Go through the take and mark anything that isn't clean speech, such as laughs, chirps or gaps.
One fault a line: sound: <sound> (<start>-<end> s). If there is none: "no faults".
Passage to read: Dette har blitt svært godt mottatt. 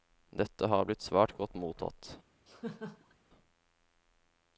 sound: laugh (2.5-3.1 s)